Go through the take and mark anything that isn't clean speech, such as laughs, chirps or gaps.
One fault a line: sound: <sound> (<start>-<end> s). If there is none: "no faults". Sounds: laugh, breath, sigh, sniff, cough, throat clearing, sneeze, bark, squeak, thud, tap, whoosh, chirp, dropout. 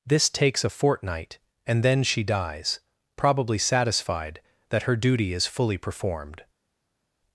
no faults